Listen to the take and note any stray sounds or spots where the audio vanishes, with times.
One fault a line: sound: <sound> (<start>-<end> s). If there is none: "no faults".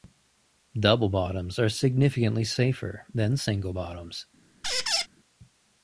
sound: squeak (4.6-5.1 s)